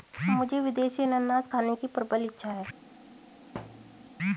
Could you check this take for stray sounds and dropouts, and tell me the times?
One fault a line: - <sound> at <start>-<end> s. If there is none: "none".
- thud at 3.5-4.1 s